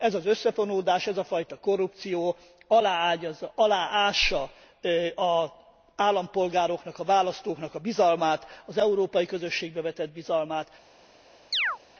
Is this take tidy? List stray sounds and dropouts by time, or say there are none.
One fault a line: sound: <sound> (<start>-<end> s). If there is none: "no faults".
sound: chirp (11.5-11.8 s)